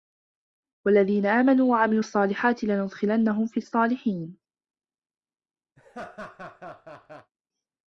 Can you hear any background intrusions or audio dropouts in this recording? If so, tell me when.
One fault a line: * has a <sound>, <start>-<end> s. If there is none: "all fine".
* has a laugh, 5.8-7.3 s